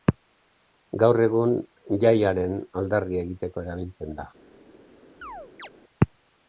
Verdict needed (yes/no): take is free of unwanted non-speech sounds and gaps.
no